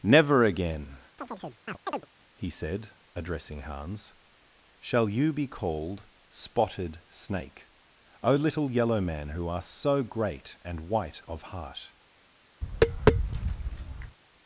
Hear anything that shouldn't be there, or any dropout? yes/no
yes